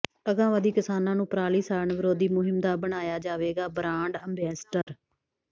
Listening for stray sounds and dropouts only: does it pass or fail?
fail